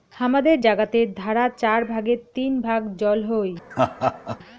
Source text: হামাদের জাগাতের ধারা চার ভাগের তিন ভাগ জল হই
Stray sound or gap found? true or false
true